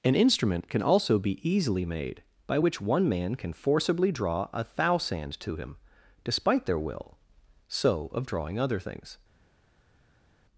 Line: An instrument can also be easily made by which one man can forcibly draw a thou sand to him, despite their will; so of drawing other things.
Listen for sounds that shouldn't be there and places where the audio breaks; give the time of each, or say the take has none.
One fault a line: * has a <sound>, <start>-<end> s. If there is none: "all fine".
all fine